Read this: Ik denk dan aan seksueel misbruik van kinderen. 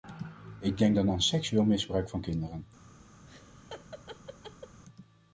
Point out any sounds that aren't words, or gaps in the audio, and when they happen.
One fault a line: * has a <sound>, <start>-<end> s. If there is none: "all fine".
* has a laugh, 3.3-4.8 s